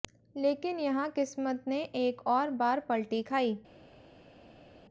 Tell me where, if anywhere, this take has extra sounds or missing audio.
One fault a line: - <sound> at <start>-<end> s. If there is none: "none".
none